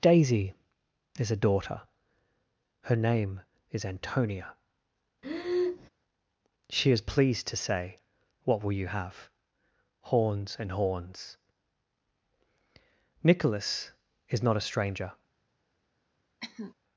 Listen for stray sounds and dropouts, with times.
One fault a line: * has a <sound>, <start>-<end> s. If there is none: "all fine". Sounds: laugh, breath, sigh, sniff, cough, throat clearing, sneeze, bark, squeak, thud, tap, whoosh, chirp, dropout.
* has a breath, 5.2-5.9 s
* has a cough, 16.4-16.7 s